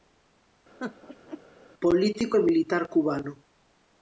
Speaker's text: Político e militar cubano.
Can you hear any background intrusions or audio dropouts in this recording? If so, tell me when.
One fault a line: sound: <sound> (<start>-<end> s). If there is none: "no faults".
sound: laugh (0.8-1.4 s)